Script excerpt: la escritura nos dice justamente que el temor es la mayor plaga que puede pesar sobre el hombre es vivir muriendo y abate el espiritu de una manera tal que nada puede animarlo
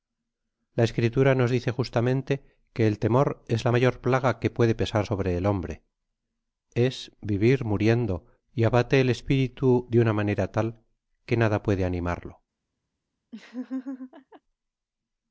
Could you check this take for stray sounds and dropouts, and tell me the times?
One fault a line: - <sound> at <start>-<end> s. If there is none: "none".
- laugh at 13.3-14.4 s